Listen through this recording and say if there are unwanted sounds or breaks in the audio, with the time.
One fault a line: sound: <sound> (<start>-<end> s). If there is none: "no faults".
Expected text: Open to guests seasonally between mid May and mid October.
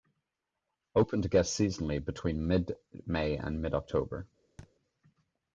sound: thud (4.6-4.7 s)